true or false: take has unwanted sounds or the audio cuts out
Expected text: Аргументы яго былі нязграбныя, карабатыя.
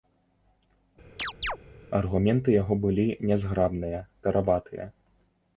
true